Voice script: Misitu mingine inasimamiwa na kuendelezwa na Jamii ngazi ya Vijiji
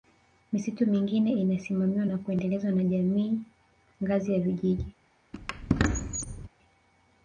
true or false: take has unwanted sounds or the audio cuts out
true